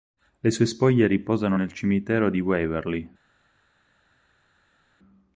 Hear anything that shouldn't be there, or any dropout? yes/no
no